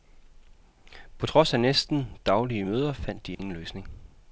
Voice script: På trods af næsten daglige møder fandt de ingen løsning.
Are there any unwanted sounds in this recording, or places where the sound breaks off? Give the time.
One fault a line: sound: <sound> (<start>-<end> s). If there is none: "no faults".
sound: dropout (3.3-3.4 s)